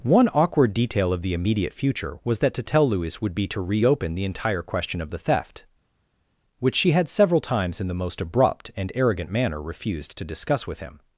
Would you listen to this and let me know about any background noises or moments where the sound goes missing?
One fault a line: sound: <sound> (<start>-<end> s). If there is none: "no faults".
no faults